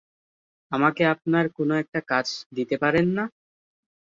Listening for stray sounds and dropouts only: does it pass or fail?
pass